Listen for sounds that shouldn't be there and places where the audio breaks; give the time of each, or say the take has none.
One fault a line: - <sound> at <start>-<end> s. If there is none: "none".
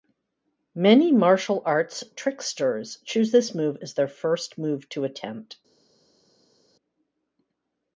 none